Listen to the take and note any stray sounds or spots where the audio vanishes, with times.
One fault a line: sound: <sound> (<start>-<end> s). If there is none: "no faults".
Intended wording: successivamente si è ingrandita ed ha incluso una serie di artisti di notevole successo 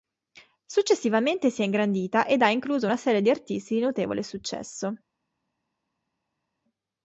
no faults